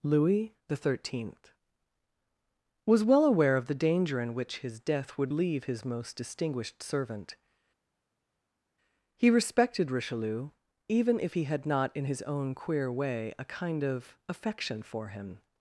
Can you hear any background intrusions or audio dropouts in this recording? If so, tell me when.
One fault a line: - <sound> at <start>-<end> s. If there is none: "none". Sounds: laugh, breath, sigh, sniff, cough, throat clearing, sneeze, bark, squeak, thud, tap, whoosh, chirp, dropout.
none